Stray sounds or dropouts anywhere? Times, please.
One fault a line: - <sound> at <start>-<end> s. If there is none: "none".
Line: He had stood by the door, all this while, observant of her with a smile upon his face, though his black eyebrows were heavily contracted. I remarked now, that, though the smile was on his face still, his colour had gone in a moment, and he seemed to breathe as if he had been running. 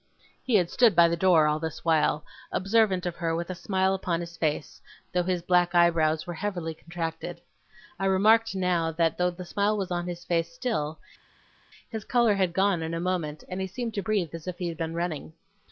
none